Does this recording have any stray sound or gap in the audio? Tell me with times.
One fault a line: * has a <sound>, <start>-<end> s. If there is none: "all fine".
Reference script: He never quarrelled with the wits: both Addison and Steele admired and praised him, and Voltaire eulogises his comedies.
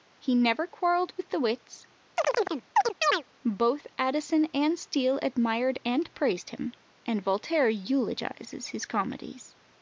* has a chirp, 2.2-3.2 s